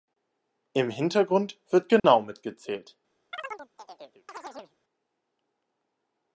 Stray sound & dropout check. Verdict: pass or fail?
fail